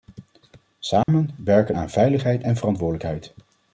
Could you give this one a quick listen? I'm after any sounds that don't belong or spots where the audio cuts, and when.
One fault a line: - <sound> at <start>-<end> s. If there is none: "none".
- dropout at 1.0-1.1 s